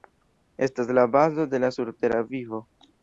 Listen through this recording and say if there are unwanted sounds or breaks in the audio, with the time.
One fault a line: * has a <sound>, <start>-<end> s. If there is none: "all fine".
all fine